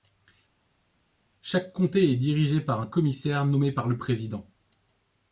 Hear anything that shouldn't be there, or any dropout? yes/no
no